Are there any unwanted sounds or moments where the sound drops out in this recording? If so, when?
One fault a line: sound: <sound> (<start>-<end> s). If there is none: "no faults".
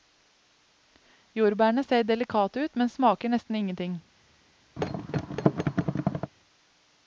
sound: thud (4.8-6.3 s)